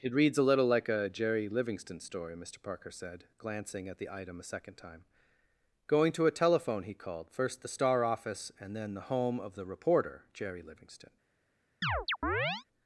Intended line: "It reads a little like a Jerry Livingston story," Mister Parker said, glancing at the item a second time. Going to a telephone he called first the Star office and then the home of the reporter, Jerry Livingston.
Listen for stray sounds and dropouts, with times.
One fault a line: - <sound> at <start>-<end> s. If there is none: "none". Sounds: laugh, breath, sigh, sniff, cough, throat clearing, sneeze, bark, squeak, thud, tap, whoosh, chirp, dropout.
- chirp at 11.8-12.6 s